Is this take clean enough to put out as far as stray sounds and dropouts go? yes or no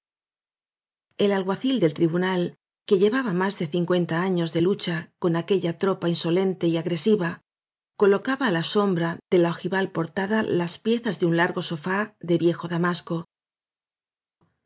yes